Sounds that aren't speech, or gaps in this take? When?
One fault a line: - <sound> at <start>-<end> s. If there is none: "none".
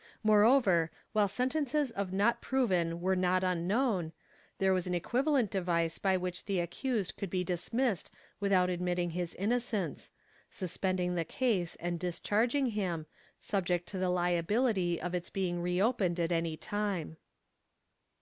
none